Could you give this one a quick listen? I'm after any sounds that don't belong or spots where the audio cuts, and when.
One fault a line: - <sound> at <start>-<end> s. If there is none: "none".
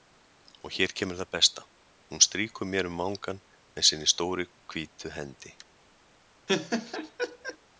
- laugh at 6.5-7.6 s